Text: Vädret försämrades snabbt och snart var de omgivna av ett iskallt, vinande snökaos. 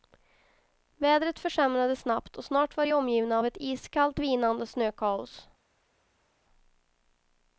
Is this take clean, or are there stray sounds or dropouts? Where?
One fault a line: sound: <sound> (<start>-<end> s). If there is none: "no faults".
no faults